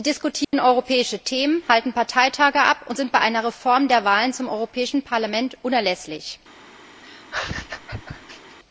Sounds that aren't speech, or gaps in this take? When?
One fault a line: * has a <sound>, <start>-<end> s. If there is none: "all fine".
* has a dropout, 0.4-0.5 s
* has a laugh, 7.0-8.6 s